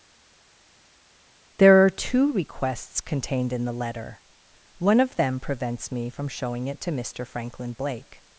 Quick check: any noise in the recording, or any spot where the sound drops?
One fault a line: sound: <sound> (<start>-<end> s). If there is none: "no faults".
no faults